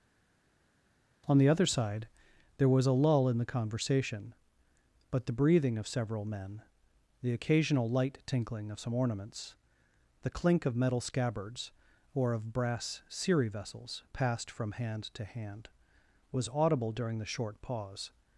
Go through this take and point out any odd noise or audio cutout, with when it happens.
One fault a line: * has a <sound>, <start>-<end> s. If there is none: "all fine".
all fine